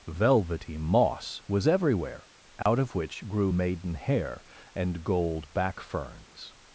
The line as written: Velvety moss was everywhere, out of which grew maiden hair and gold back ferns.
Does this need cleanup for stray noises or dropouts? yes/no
yes